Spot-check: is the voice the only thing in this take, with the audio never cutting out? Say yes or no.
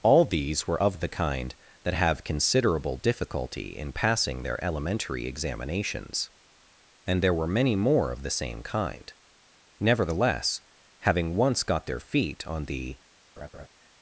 no